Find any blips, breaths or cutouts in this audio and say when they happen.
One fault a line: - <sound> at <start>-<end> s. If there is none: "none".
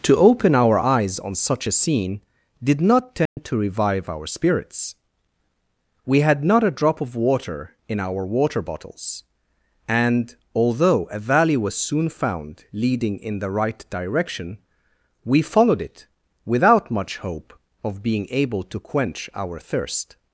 - dropout at 3.3-3.4 s